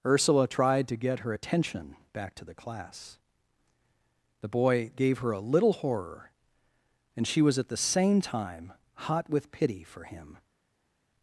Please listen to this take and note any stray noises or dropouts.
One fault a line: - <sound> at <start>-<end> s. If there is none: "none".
none